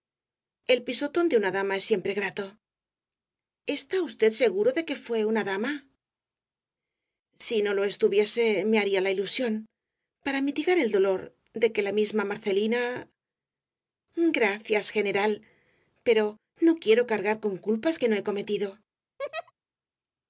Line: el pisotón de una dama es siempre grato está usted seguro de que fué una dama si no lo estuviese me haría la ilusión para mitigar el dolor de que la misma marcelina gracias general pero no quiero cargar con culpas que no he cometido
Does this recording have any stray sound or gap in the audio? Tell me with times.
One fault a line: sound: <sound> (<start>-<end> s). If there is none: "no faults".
sound: laugh (19.2-19.5 s)